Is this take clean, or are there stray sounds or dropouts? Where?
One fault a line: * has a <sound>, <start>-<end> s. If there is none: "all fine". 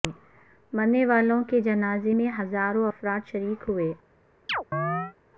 * has a chirp, 4.5-5.1 s